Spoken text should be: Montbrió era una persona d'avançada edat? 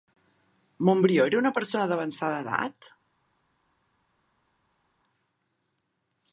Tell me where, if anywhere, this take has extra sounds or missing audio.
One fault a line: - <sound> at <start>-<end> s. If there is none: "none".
none